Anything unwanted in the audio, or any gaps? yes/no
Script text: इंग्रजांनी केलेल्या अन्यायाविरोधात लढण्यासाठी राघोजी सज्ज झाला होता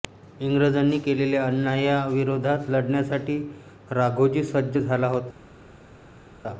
no